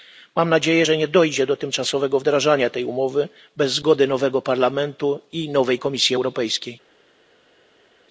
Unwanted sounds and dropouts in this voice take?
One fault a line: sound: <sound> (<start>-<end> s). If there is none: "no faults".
no faults